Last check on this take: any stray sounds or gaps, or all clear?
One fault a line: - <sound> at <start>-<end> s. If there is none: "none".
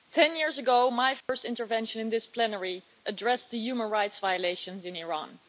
- dropout at 1.2-1.3 s